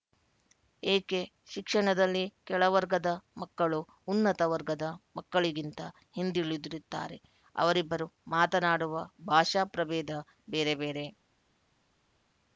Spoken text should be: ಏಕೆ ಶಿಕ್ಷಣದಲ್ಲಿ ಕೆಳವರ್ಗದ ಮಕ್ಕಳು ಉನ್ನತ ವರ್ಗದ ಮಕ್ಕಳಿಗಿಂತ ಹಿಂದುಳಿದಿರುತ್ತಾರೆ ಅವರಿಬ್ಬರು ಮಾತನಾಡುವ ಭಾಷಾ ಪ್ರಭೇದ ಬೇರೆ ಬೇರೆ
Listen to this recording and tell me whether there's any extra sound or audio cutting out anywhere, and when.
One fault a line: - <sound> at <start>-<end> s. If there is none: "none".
none